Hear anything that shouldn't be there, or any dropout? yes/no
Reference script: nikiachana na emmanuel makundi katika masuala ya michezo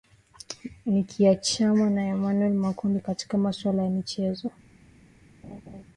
yes